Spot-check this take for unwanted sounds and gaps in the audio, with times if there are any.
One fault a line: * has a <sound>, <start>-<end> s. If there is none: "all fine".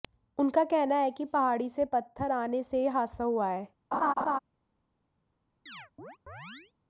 * has a laugh, 3.9-4.4 s
* has a chirp, 5.7-6.7 s